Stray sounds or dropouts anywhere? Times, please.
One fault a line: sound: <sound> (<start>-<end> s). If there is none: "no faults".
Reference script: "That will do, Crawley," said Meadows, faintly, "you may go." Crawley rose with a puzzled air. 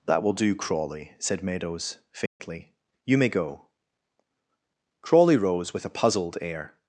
sound: dropout (2.3-2.4 s)